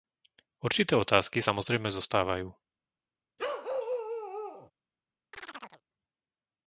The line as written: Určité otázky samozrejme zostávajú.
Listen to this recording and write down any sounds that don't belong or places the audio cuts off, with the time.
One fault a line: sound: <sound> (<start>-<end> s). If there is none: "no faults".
sound: bark (3.4-4.7 s)
sound: chirp (5.3-5.8 s)